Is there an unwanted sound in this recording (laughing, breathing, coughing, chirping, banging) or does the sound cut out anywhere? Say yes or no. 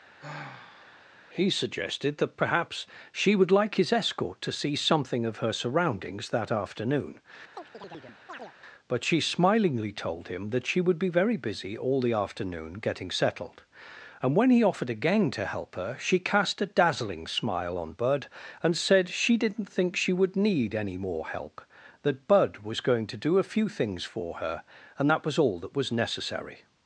yes